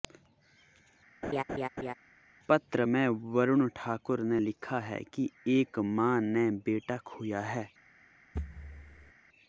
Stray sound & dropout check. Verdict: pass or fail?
fail